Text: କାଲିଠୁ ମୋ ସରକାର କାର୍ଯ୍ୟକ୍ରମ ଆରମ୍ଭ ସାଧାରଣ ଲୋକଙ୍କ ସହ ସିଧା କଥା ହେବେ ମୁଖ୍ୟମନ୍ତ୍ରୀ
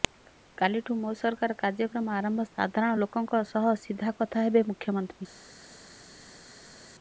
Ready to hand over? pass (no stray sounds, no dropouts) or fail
pass